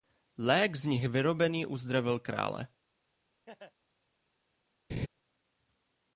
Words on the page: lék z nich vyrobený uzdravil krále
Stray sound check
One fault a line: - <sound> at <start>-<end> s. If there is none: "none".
- laugh at 3.5-3.7 s
- laugh at 4.9-5.1 s